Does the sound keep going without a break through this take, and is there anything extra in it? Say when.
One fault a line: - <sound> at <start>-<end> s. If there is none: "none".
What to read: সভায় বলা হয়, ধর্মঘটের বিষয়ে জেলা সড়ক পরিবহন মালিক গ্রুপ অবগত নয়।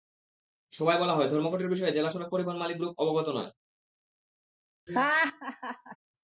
- laugh at 4.9-6.0 s